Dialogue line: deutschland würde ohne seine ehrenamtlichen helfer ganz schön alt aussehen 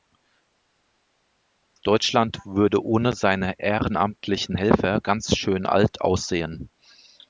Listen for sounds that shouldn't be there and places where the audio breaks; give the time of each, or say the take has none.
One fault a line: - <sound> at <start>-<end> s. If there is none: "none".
none